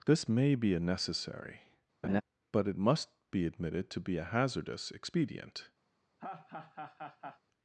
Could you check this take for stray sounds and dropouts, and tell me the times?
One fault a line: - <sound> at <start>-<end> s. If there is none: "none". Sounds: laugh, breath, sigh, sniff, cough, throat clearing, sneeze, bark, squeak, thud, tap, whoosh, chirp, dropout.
- laugh at 2.0-2.2 s
- laugh at 6.2-7.4 s